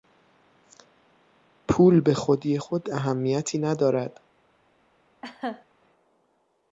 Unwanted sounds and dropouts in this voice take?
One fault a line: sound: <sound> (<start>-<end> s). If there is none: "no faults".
sound: laugh (5.2-5.6 s)